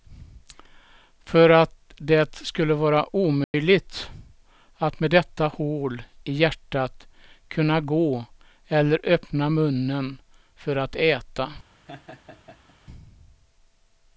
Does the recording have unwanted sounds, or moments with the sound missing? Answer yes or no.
yes